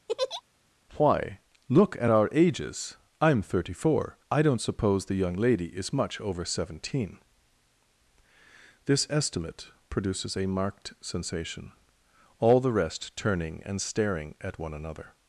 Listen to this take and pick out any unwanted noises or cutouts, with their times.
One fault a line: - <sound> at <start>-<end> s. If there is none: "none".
- laugh at 0.1-0.4 s